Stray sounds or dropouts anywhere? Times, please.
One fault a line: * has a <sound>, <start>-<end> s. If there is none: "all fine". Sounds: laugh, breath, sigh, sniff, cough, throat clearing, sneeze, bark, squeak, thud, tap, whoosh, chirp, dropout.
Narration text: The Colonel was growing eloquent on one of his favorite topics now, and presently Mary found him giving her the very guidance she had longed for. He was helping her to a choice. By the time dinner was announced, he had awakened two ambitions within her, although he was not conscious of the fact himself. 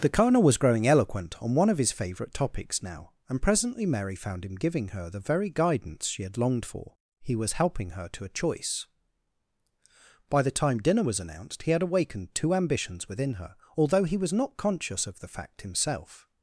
all fine